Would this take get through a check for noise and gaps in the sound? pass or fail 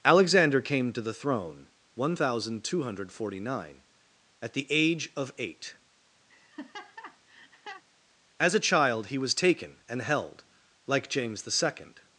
fail